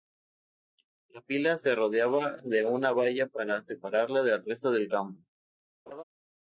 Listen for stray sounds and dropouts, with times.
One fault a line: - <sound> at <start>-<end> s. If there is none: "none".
- laugh at 5.9-6.0 s